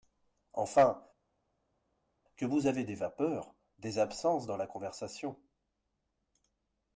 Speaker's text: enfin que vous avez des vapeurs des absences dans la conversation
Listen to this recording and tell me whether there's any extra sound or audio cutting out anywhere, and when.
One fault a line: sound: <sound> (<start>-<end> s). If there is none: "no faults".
no faults